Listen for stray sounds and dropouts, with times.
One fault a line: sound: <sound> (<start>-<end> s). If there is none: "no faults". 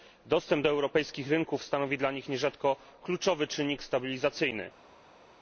no faults